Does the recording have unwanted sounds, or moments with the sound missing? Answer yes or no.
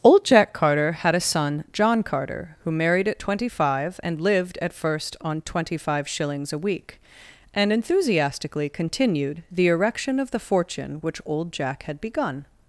no